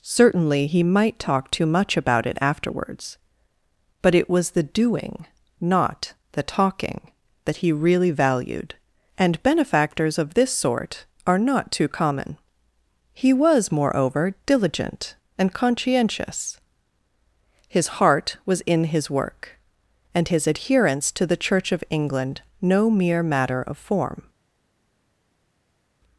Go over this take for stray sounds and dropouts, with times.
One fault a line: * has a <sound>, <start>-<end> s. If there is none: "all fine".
all fine